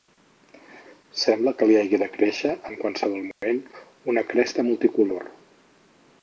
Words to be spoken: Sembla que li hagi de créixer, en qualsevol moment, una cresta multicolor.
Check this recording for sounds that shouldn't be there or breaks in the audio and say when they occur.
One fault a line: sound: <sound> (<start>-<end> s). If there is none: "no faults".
sound: dropout (3.3-3.4 s)